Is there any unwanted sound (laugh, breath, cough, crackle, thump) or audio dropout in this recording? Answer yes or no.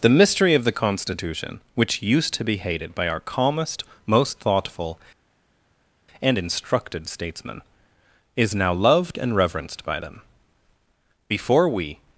no